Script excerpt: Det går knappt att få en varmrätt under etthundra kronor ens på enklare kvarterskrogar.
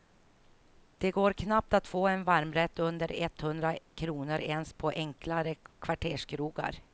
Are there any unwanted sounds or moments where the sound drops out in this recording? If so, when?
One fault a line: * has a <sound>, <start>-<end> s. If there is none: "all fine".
all fine